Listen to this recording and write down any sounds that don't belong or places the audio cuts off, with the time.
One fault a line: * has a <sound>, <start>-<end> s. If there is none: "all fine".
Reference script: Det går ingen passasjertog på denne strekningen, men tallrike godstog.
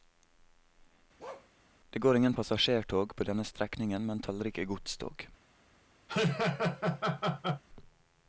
* has a bark, 1.2-1.5 s
* has a laugh, 6.1-7.6 s